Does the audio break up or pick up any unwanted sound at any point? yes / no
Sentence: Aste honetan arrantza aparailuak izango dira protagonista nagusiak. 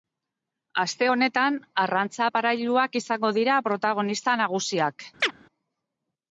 yes